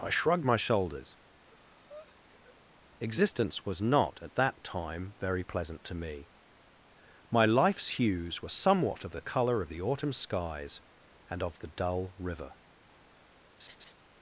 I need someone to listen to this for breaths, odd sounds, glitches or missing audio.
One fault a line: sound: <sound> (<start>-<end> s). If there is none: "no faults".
sound: breath (1.4-2.6 s)
sound: laugh (13.6-13.9 s)